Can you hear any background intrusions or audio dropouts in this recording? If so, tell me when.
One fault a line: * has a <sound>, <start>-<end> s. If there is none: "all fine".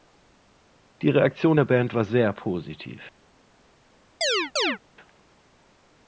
* has a chirp, 4.2-4.8 s